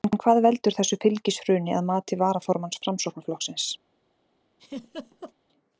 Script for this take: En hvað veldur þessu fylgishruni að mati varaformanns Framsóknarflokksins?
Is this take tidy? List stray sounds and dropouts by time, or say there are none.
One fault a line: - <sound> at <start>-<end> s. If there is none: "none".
- laugh at 4.6-5.3 s